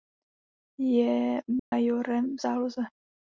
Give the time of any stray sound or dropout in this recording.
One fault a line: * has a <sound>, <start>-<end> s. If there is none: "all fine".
* has a dropout, 1.6-1.7 s